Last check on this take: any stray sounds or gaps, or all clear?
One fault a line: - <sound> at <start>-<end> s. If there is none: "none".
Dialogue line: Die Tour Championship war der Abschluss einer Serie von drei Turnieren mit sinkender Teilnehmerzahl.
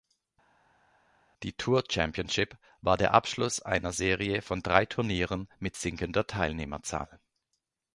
none